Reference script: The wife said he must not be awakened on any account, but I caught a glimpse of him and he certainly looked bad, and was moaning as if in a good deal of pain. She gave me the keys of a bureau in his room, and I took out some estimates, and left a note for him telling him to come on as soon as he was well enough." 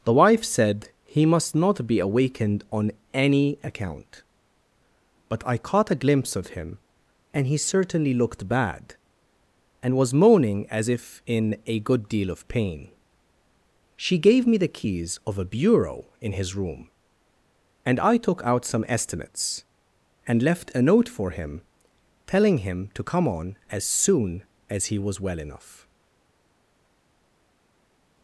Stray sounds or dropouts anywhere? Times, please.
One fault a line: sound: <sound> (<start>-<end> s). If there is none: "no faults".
no faults